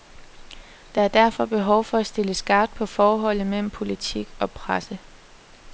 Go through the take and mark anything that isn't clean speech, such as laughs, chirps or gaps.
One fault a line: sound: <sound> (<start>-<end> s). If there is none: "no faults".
no faults